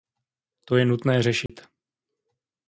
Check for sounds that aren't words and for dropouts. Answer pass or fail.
fail